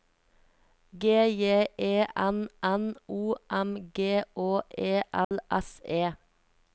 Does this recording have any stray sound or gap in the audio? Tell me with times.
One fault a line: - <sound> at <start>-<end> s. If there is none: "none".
- dropout at 5.2-5.3 s